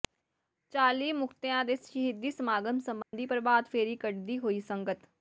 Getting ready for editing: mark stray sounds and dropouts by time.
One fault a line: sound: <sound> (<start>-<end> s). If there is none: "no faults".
sound: dropout (3.0-3.1 s)